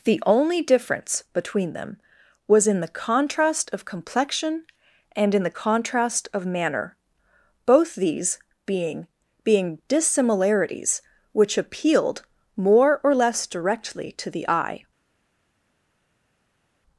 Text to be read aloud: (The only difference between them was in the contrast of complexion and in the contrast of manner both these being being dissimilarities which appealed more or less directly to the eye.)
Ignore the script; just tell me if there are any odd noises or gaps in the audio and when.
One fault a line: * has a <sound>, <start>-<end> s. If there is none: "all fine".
all fine